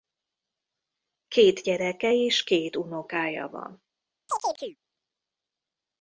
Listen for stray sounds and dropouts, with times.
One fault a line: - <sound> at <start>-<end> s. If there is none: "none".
- chirp at 4.3-4.8 s